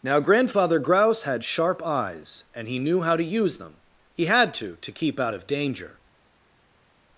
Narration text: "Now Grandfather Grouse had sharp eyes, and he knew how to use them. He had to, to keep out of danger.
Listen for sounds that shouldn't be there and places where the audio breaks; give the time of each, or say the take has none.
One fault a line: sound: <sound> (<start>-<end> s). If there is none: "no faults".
no faults